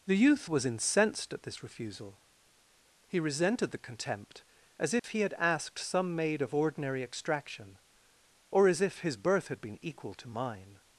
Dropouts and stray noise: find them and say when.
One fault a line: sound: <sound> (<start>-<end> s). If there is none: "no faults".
sound: dropout (5.0-5.0 s)